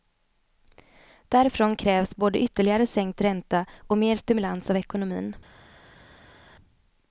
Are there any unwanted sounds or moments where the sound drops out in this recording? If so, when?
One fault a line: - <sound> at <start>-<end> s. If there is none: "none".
none